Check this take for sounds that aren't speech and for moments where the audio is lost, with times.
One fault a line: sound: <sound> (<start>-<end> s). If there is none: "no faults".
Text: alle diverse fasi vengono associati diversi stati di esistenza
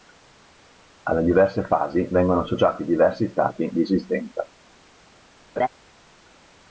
sound: laugh (5.6-5.7 s)